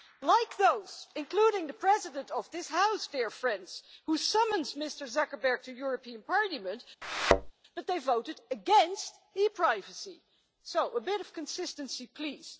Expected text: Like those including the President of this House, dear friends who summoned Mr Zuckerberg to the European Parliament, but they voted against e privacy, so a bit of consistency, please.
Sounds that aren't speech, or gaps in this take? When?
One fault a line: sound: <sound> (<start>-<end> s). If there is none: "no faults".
sound: thud (7.0-7.5 s)